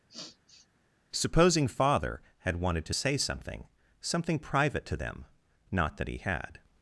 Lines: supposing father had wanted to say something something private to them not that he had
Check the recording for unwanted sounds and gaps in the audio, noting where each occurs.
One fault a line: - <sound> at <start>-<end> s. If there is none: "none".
- sniff at 0.1-0.7 s